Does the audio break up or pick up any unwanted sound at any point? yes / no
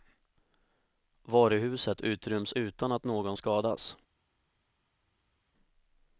no